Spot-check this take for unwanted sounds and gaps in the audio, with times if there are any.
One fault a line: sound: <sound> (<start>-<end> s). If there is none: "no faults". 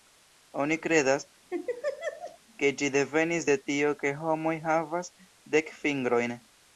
sound: laugh (1.5-2.4 s)